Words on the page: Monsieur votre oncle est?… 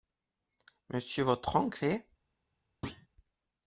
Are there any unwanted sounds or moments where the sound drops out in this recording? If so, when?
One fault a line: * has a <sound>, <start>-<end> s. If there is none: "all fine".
* has a thud, 2.8-3.1 s